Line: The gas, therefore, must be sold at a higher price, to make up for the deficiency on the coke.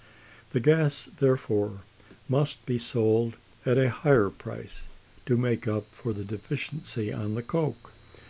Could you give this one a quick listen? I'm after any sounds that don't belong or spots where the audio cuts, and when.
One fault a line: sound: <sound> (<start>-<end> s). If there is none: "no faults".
no faults